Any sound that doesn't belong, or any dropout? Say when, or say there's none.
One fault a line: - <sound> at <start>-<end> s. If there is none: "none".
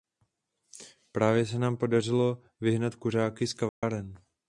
- dropout at 3.7-3.8 s